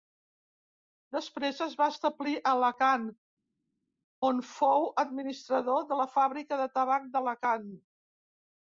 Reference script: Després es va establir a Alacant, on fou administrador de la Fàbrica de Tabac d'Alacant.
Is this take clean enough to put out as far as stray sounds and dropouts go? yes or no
yes